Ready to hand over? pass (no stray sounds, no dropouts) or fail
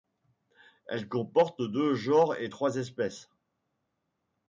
pass